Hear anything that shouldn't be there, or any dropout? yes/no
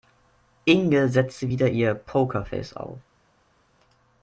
no